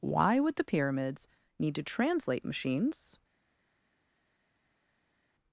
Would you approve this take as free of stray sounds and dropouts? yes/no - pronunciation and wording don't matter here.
yes